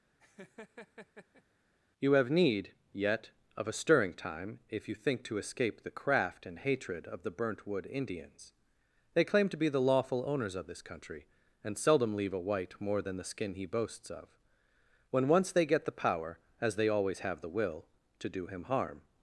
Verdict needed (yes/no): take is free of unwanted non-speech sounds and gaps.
no